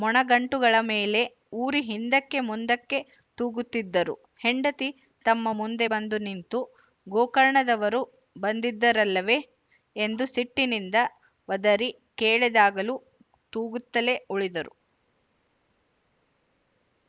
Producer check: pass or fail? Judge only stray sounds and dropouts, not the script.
pass